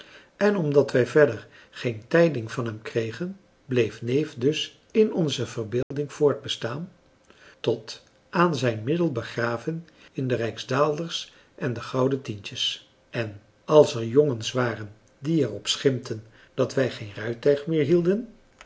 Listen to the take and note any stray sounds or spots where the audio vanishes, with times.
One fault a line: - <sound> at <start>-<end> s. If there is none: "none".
- dropout at 5.8-5.9 s